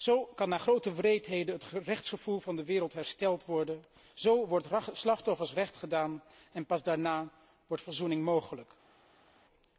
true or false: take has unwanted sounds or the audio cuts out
false